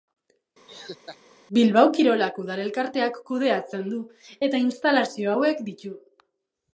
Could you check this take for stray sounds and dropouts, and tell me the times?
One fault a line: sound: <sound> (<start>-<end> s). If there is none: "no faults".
sound: laugh (0.7-1.2 s)